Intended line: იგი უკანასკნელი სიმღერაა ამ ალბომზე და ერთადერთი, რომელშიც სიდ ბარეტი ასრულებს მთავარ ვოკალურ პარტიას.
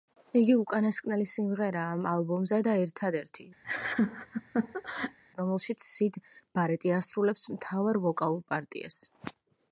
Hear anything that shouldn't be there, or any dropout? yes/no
yes